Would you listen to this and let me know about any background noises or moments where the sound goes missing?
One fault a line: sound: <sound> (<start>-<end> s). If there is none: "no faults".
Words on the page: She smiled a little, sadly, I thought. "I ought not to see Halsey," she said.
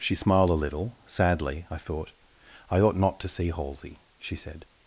no faults